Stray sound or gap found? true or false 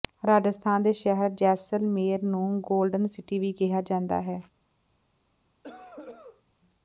true